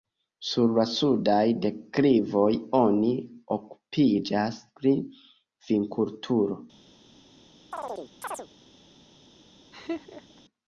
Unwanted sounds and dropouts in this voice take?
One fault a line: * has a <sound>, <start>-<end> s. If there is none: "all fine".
* has a chirp, 7.7-8.5 s
* has a laugh, 9.7-10.4 s